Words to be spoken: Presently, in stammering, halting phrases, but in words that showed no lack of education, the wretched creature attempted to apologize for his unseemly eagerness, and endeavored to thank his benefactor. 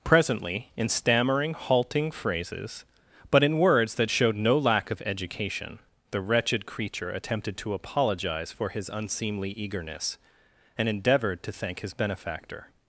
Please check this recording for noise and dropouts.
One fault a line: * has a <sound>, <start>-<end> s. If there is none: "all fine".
all fine